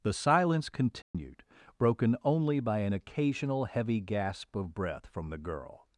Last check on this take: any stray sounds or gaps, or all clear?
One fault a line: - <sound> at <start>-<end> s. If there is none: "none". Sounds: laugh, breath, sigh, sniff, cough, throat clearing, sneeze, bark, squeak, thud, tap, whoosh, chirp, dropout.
- dropout at 1.0-1.1 s